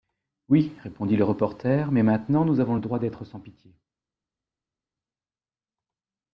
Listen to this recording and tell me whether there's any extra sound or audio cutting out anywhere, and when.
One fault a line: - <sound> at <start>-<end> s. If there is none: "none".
none